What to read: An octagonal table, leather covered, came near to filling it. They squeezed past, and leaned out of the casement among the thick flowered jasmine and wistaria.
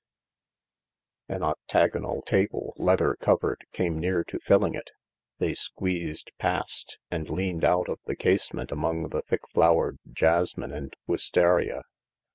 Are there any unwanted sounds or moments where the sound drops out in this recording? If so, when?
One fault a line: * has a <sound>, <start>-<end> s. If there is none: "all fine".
all fine